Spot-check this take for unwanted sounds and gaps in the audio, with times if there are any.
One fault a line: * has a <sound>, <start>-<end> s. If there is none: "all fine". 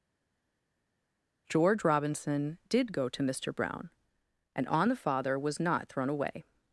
all fine